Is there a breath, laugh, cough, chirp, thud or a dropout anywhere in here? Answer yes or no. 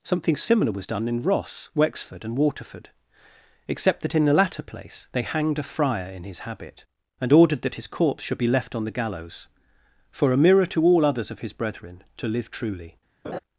yes